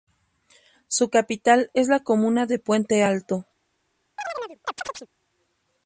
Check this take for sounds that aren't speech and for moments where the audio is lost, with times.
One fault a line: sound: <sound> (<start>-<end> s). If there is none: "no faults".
sound: chirp (4.2-5.1 s)